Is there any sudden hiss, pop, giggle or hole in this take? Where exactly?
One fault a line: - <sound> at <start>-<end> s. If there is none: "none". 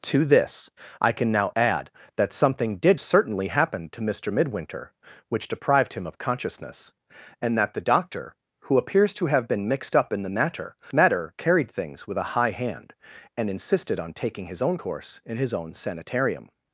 none